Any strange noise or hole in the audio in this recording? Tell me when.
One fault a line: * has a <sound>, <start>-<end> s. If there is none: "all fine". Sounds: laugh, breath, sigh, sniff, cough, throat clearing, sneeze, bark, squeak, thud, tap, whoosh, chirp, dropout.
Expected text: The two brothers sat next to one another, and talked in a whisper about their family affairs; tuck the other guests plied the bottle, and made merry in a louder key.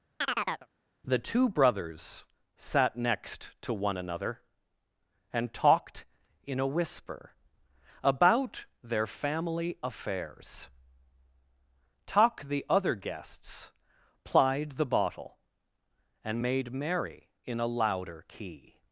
* has a chirp, 0.2-0.7 s